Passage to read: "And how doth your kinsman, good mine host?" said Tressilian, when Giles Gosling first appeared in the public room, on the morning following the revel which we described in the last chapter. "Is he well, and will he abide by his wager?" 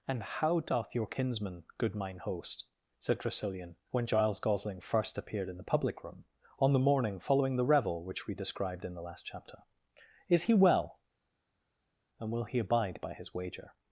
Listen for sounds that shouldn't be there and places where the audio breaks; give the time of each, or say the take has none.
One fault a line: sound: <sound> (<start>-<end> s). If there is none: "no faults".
no faults